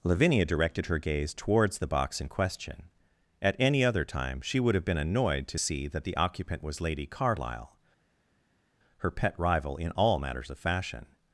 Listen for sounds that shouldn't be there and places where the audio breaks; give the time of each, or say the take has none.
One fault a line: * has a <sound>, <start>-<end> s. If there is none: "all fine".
all fine